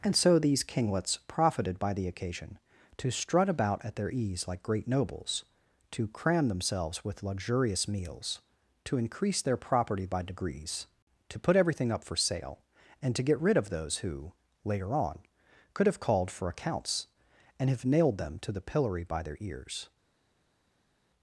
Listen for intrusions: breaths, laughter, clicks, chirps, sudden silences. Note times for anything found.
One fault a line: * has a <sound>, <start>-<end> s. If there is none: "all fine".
all fine